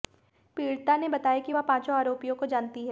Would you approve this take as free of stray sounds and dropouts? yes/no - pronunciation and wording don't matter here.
yes